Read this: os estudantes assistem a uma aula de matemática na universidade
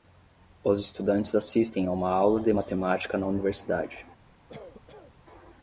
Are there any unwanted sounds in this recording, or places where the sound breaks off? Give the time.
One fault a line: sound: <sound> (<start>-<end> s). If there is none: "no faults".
sound: cough (4.5-5.1 s)